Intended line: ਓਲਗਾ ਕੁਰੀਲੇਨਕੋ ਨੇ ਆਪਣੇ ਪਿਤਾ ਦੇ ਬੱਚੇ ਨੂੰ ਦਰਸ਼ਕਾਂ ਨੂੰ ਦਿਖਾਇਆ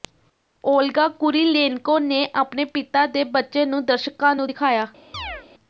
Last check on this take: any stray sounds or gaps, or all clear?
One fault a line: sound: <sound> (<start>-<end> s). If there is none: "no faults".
sound: chirp (5.1-5.5 s)